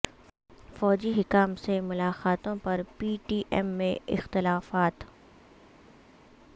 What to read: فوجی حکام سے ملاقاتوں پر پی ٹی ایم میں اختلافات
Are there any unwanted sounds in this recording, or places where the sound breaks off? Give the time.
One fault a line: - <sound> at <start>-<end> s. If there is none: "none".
none